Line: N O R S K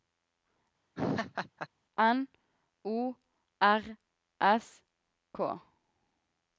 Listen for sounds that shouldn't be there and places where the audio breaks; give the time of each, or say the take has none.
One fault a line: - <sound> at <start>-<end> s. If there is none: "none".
- laugh at 1.0-1.7 s